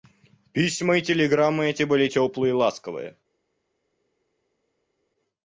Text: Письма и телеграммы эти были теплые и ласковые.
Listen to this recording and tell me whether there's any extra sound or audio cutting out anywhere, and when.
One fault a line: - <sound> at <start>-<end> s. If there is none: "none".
none